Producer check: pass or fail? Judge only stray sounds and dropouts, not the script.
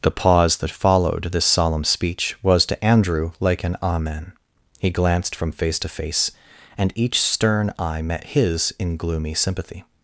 pass